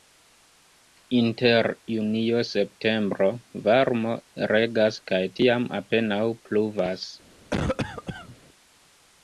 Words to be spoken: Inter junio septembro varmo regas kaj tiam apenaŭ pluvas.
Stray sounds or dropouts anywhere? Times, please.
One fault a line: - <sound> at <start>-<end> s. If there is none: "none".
- cough at 7.5-8.4 s